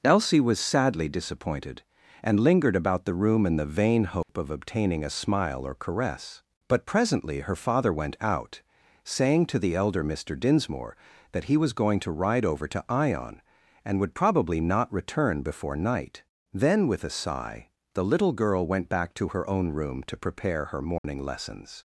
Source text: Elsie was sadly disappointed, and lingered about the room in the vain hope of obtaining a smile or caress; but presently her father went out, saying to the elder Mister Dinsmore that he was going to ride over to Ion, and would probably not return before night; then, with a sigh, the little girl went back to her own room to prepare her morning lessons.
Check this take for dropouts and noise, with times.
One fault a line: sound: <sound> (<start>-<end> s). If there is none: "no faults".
sound: dropout (4.2-4.3 s)
sound: dropout (21.0-21.0 s)